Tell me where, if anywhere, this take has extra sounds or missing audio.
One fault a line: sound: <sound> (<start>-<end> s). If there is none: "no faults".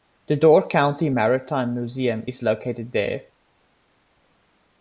no faults